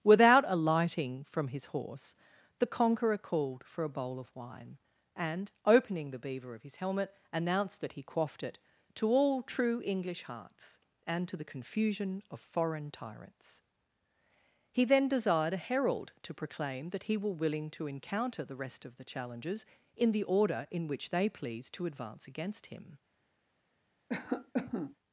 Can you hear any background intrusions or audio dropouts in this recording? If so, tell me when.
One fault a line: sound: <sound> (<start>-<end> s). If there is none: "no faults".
sound: cough (24.1-24.9 s)